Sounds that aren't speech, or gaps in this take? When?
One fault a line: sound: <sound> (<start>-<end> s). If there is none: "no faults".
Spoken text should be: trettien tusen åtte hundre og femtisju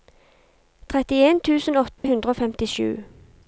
sound: dropout (2.0-2.0 s)